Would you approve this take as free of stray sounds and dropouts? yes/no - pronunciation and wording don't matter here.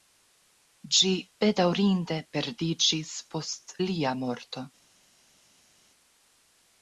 yes